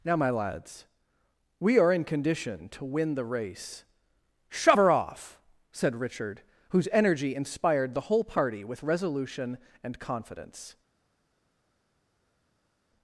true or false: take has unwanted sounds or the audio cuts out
false